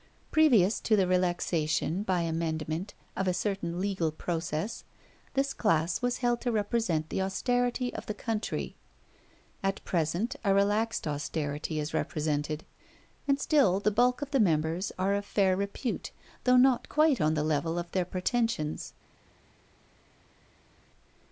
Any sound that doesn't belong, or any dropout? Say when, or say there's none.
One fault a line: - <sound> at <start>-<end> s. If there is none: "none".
none